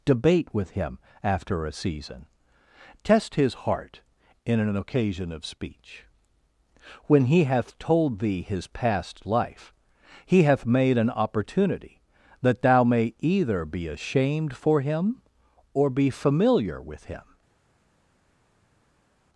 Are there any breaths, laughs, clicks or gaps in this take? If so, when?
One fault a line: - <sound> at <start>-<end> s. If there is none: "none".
none